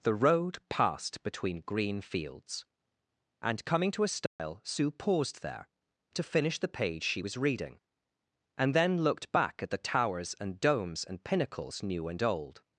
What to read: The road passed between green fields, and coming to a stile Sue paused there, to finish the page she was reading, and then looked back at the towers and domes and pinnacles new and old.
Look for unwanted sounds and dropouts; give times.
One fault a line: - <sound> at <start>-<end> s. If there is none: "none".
- dropout at 4.3-4.4 s